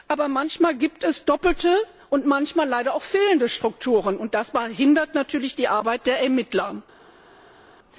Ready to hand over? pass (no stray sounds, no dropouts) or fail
pass